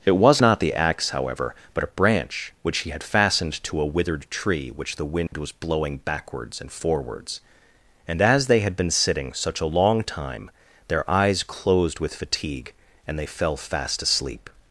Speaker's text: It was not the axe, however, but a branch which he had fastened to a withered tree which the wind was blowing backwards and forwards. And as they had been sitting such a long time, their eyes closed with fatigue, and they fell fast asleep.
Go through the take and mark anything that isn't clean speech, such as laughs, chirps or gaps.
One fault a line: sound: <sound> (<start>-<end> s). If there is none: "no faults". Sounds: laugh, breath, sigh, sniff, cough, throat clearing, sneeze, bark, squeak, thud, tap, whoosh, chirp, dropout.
sound: dropout (5.3-5.3 s)